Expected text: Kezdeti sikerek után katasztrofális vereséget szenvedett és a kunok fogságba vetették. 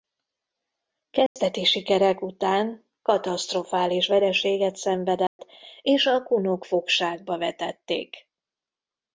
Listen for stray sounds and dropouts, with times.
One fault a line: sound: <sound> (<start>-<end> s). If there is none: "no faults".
sound: dropout (1.3-1.4 s)
sound: dropout (5.3-5.4 s)